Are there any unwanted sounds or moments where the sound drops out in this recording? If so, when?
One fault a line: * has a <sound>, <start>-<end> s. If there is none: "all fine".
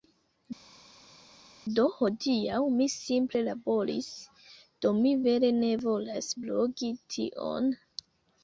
all fine